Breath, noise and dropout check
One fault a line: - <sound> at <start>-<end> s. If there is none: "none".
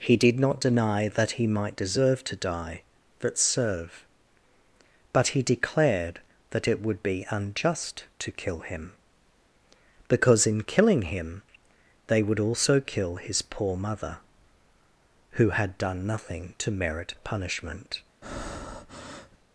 - breath at 18.2-19.4 s